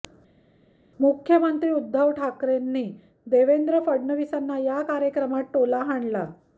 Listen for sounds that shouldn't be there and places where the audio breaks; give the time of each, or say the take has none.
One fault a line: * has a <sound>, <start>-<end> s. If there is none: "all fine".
all fine